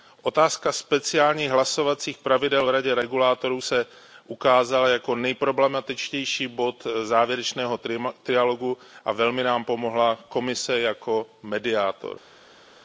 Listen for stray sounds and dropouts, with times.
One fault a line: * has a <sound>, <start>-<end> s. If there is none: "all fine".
all fine